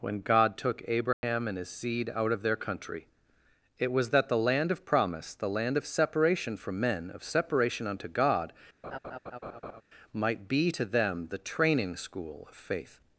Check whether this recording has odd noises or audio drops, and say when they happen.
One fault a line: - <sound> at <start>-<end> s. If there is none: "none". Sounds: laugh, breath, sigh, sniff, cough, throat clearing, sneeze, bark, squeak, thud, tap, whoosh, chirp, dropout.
- dropout at 1.1-1.2 s
- laugh at 8.8-9.8 s